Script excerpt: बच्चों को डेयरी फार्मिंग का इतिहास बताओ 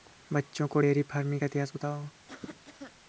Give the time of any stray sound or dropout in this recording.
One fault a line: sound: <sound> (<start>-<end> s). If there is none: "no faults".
sound: cough (2.3-2.9 s)